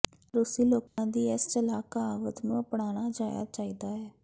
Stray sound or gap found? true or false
true